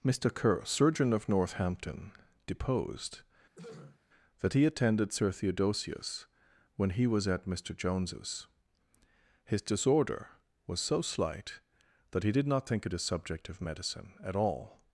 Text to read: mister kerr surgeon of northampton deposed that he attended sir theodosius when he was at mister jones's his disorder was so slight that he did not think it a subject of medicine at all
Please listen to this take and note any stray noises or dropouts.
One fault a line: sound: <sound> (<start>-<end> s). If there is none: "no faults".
sound: throat clearing (3.5-4.0 s)